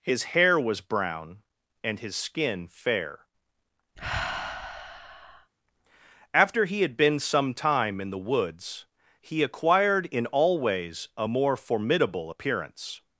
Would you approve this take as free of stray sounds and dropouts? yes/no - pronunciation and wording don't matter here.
no